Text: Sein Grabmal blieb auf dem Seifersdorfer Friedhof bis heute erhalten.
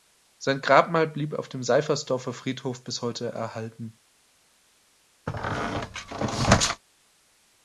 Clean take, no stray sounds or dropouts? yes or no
no